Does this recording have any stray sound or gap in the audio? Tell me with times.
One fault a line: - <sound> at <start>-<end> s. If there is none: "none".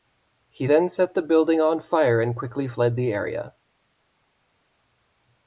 none